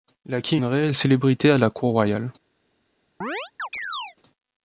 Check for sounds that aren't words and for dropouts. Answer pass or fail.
fail